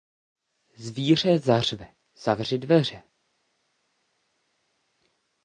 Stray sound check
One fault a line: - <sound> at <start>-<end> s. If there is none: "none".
none